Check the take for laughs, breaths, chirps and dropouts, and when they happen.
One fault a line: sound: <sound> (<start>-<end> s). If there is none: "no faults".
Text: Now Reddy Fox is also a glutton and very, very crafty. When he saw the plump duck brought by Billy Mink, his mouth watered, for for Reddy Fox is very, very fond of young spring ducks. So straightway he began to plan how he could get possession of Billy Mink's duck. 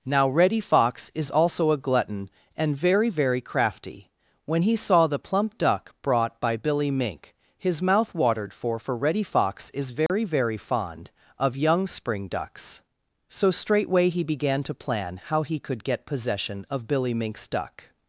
sound: dropout (10.1-10.1 s)